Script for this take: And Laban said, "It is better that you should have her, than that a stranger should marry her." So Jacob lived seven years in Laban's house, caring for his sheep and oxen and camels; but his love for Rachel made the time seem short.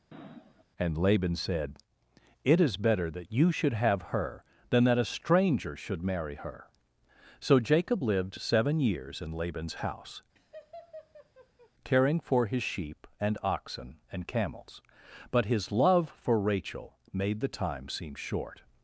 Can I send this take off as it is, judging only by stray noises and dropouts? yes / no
no